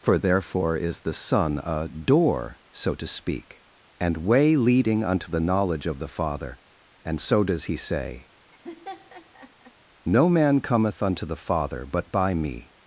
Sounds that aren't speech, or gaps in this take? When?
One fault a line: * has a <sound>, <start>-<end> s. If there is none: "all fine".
* has a laugh, 8.5-9.7 s